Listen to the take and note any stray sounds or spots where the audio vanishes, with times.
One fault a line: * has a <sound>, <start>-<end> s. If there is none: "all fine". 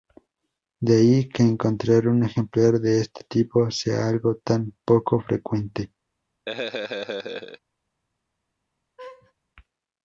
* has a laugh, 6.5-7.6 s
* has a laugh, 9.0-9.3 s